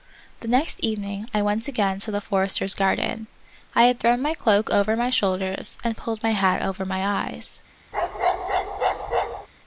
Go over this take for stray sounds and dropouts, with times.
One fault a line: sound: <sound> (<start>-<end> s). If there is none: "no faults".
sound: bark (7.9-9.5 s)